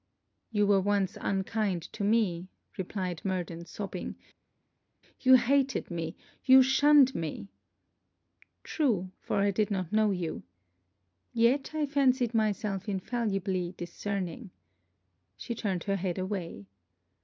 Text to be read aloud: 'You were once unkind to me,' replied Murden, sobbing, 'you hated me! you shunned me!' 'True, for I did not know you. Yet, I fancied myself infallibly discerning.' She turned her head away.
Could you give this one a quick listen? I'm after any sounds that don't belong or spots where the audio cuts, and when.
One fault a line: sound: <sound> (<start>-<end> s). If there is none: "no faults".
no faults